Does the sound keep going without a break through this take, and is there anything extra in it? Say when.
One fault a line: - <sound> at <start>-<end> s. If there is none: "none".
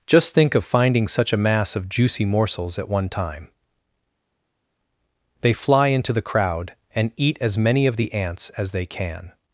none